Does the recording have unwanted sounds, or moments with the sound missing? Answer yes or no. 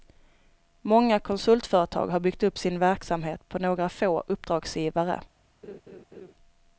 yes